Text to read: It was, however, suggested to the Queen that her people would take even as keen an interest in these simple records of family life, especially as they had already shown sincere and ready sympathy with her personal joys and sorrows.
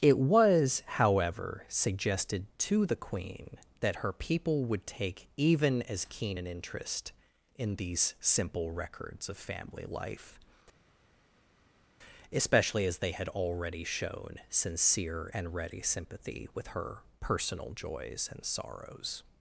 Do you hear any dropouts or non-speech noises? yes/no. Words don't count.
no